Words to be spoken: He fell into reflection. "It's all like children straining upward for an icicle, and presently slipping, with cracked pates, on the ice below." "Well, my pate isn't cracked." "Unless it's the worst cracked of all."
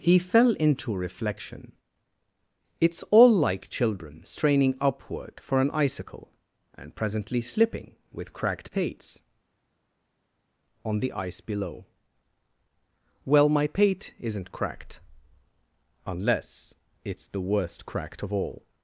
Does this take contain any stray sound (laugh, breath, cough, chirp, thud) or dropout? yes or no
no